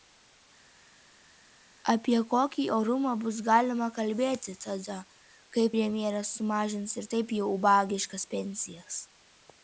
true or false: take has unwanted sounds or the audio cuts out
false